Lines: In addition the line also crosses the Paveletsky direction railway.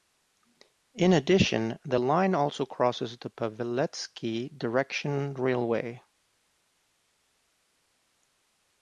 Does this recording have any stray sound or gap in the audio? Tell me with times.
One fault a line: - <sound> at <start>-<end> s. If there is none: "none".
none